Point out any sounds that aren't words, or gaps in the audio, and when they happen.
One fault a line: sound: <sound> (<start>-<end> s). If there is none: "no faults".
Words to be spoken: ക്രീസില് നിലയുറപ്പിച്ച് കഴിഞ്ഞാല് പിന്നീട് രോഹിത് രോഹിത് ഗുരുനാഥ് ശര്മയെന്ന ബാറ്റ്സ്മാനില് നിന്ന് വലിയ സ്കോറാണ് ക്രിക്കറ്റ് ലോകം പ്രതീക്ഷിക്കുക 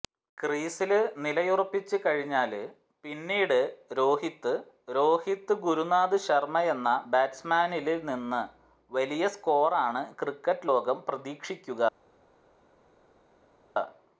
no faults